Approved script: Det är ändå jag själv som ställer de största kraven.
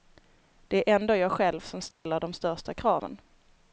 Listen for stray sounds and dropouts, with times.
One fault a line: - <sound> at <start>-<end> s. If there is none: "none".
- dropout at 1.9-2.1 s